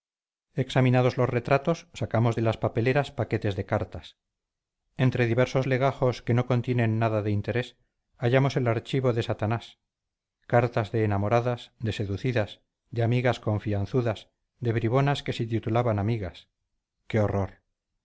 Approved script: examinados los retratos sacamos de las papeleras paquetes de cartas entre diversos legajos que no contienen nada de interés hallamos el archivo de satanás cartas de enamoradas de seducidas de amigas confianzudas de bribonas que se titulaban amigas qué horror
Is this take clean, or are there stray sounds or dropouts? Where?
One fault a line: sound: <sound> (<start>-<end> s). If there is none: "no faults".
no faults